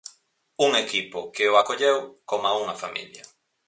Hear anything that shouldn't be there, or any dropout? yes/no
no